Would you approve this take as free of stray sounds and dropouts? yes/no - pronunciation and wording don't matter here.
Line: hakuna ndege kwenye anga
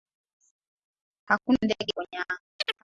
no